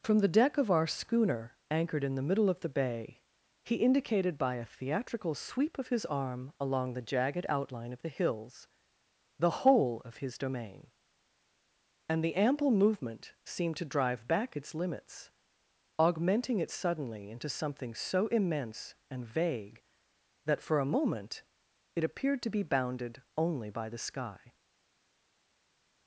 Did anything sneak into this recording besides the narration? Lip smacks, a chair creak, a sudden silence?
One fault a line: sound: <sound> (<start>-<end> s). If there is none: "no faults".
no faults